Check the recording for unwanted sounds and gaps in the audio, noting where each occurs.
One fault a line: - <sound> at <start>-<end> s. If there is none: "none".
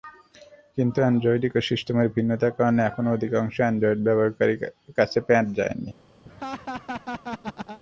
- laugh at 6.3-7.8 s